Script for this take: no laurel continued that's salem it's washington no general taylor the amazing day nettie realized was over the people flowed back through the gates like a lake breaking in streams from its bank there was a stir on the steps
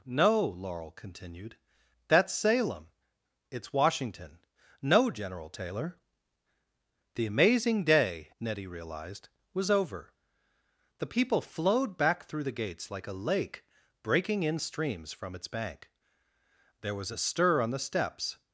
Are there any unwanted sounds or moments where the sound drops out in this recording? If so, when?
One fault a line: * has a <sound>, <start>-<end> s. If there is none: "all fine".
all fine